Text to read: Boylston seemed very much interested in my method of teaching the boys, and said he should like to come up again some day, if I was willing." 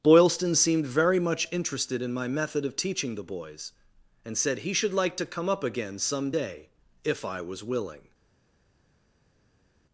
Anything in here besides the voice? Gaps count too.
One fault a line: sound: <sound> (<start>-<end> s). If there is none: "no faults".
no faults